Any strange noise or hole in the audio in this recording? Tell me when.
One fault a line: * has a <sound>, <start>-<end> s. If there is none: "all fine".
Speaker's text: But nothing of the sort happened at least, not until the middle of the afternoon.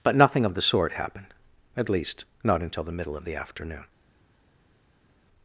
all fine